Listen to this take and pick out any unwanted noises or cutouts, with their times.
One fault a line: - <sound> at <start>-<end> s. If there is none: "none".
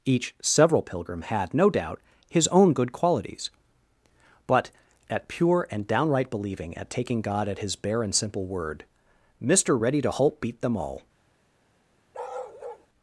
- bark at 12.1-12.9 s